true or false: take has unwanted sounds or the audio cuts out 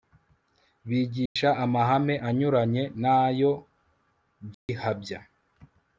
true